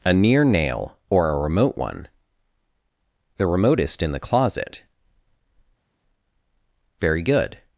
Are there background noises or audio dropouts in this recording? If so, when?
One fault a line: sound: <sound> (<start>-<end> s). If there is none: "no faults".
no faults